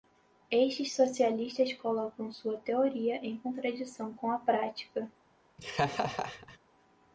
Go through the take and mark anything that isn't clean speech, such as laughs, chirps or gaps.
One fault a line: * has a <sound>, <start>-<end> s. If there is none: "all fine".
* has a laugh, 5.6-6.6 s